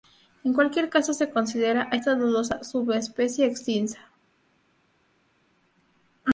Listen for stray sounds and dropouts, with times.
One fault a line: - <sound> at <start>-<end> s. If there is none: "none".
none